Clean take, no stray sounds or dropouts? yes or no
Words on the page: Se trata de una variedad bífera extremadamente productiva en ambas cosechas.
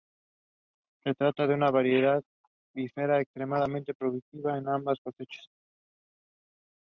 yes